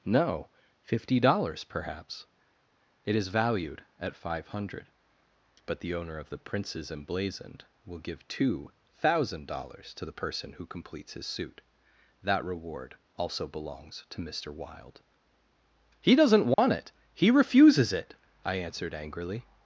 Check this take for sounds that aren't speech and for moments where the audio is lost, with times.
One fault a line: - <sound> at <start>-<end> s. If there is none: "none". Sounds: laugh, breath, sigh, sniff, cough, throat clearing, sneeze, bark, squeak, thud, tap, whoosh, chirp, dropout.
- dropout at 16.5-16.6 s